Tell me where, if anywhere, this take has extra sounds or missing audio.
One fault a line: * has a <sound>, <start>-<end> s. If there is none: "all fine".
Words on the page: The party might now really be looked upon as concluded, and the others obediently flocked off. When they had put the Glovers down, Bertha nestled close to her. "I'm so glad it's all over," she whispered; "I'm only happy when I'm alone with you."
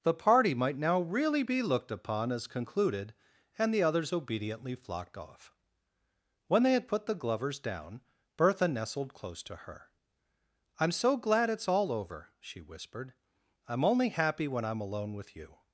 all fine